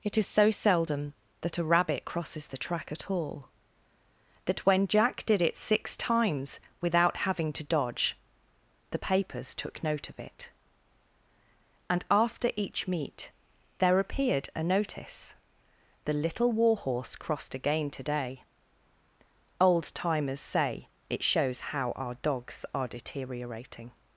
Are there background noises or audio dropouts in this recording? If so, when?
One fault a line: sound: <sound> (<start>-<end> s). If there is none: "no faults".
no faults